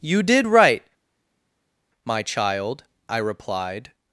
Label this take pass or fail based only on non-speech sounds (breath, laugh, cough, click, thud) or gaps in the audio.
pass